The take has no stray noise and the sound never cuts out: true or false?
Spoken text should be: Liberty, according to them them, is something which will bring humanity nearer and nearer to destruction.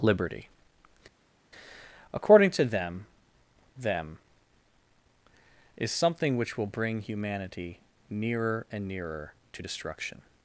true